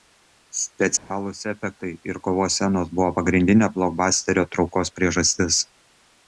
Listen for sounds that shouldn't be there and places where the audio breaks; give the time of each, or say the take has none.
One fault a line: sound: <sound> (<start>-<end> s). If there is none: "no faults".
sound: dropout (1.0-1.1 s)